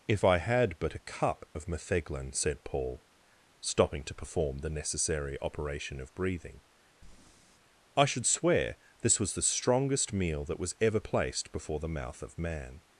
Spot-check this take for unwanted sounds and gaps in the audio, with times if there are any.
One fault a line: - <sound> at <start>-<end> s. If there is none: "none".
- breath at 7.0-7.6 s